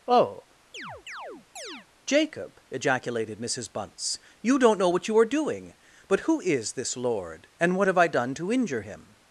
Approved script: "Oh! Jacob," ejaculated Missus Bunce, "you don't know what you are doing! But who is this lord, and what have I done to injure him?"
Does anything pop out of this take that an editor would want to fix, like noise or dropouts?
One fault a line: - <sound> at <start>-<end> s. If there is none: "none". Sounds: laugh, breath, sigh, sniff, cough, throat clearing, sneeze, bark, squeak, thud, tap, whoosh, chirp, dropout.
- chirp at 0.7-1.9 s